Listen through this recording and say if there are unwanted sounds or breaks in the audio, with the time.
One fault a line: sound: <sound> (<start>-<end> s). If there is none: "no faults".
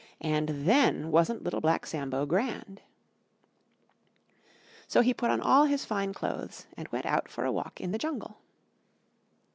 no faults